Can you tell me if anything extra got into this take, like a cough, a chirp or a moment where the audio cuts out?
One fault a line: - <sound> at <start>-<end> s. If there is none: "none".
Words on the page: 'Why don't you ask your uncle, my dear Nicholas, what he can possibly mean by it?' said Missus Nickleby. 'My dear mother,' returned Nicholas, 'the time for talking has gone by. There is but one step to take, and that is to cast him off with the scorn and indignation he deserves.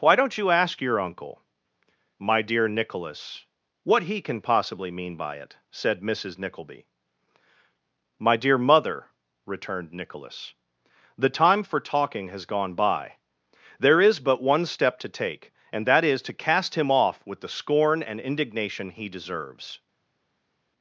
none